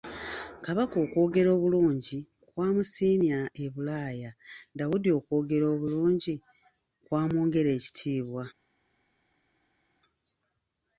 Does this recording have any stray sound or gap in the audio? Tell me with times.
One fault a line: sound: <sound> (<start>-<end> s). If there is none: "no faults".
no faults